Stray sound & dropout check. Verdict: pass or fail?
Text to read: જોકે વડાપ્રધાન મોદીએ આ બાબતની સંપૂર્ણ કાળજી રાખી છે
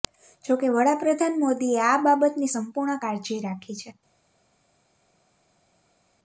pass